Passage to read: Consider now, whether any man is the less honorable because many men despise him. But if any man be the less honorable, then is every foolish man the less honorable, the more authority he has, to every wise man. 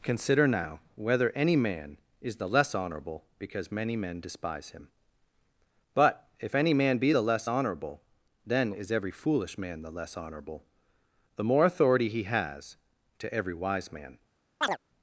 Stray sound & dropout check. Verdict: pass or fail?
fail